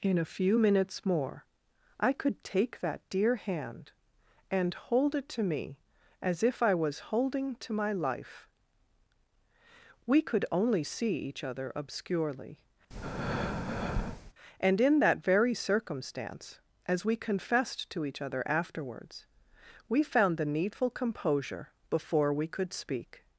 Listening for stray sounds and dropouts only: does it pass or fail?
fail